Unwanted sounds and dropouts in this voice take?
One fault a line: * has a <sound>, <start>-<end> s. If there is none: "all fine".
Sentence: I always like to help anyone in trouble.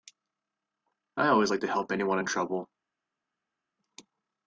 all fine